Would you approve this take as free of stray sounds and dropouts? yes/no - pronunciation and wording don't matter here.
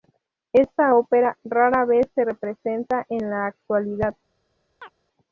no